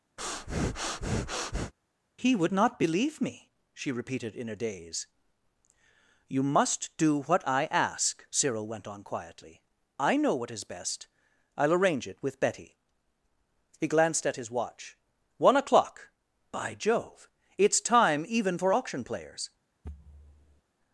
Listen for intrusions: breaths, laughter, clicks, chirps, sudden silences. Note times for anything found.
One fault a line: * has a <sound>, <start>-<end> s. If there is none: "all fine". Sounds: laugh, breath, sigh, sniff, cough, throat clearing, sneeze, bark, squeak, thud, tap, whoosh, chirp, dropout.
* has a breath, 0.2-1.7 s
* has a thud, 19.8-20.6 s